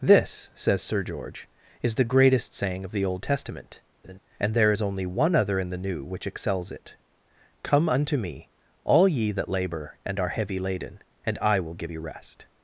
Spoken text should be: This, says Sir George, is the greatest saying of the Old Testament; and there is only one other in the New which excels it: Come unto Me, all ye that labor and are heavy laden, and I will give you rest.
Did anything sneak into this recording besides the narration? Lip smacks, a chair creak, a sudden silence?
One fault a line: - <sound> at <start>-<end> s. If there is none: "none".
- laugh at 4.0-4.2 s